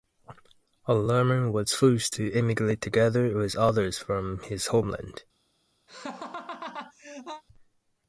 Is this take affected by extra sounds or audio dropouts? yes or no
yes